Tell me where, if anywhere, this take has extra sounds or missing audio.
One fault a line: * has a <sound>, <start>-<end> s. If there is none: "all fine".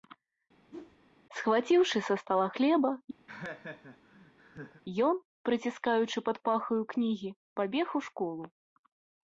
* has a whoosh, 0.7-1.0 s
* has a laugh, 3.3-4.8 s